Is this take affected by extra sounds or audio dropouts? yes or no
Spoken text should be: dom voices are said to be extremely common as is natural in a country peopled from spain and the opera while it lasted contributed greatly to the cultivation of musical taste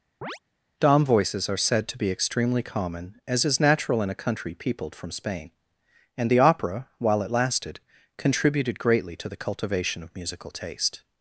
yes